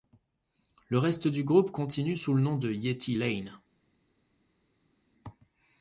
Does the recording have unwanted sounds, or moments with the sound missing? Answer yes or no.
no